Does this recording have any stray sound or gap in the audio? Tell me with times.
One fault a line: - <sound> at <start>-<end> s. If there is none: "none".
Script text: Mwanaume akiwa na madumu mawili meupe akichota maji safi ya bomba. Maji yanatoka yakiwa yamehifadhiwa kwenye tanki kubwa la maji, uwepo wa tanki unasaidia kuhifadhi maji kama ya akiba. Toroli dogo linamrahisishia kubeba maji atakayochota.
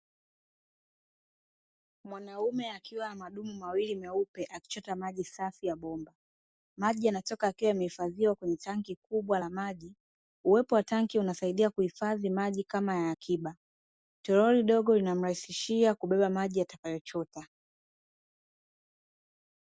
none